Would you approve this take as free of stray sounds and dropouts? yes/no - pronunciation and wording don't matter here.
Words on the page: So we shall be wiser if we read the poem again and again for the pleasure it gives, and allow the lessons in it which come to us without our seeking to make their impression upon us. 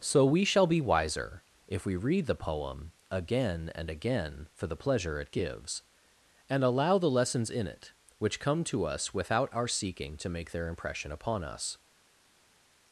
yes